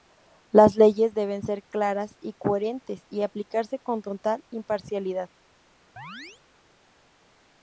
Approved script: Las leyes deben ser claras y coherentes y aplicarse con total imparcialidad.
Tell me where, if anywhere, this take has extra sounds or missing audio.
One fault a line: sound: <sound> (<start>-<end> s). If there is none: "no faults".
sound: chirp (6.0-6.4 s)